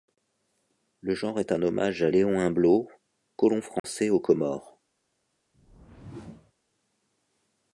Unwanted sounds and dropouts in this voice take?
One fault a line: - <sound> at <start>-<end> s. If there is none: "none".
- dropout at 3.8-3.8 s
- whoosh at 5.5-6.5 s